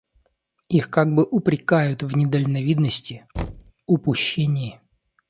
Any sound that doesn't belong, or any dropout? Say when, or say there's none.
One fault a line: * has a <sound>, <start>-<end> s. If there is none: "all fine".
* has a thud, 3.3-3.7 s